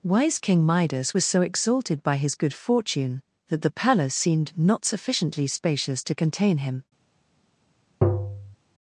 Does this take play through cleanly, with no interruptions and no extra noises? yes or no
no